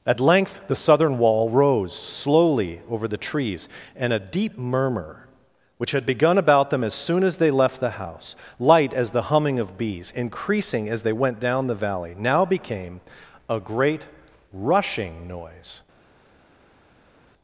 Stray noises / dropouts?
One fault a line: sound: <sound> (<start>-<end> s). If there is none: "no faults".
no faults